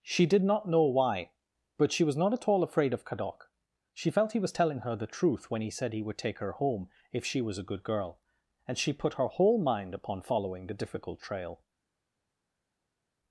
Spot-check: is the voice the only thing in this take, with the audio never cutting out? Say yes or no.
yes